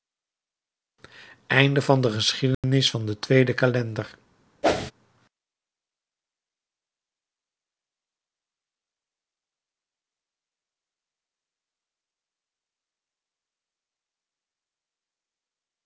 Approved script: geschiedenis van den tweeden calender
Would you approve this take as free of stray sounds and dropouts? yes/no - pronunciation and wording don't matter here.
no